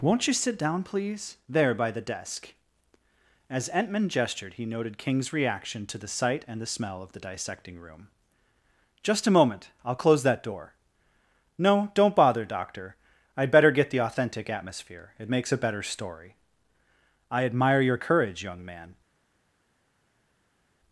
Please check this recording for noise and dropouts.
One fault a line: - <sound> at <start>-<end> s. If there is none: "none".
none